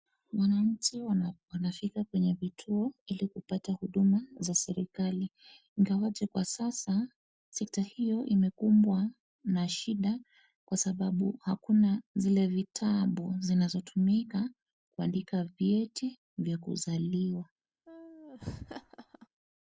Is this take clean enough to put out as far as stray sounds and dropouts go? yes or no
no